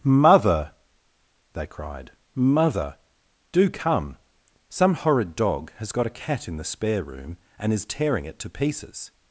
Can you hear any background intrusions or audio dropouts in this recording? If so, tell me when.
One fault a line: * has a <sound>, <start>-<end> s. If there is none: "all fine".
all fine